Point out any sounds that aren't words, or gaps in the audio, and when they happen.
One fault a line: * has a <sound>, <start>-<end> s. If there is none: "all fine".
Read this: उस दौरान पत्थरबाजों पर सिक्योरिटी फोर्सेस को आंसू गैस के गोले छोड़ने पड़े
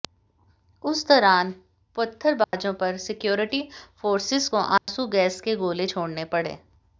* has a dropout, 2.4-2.5 s
* has a dropout, 4.8-4.9 s